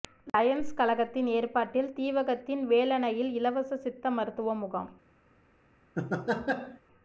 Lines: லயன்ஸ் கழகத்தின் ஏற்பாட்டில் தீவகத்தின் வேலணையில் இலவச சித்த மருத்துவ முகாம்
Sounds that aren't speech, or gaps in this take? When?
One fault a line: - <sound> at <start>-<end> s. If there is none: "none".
- laugh at 6.0-6.8 s